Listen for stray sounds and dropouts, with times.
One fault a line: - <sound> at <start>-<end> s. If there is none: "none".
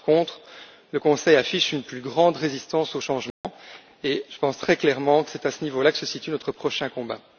- dropout at 3.3-3.4 s